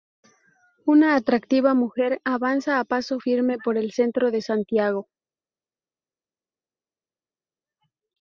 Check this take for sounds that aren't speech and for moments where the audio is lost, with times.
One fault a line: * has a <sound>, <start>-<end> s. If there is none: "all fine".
all fine